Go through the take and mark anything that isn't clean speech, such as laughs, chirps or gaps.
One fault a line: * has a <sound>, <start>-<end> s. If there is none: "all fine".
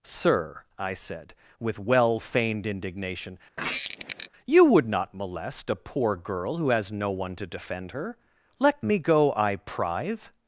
* has a squeak, 3.6-4.3 s